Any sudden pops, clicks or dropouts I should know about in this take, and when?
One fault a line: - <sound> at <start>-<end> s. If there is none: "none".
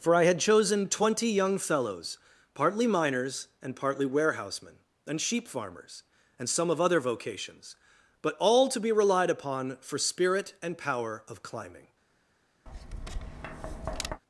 - tap at 12.7-14.2 s